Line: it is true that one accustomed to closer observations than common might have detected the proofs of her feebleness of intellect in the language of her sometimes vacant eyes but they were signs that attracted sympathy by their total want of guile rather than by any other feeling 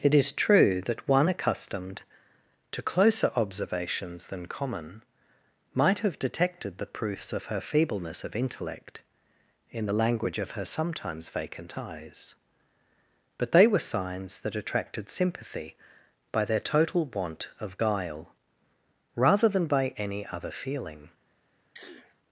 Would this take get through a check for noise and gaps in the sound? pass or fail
fail